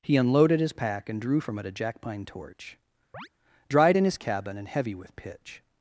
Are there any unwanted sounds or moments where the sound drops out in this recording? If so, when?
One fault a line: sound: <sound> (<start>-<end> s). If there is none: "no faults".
sound: chirp (3.1-3.3 s)